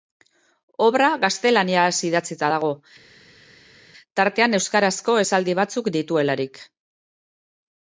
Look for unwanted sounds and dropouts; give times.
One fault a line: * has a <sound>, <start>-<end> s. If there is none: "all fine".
all fine